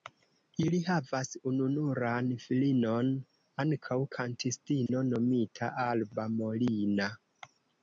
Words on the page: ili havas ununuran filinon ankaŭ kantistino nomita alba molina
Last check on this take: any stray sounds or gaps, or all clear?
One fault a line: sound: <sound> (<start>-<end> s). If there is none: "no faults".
sound: dropout (4.9-4.9 s)